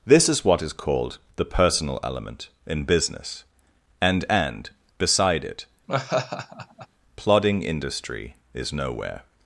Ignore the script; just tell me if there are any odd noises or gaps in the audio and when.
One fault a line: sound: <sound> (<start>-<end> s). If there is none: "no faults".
sound: laugh (5.9-6.9 s)